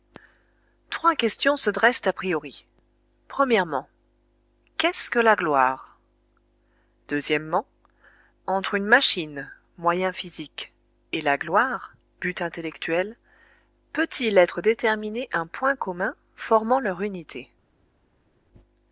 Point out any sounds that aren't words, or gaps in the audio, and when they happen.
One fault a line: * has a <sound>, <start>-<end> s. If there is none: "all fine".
all fine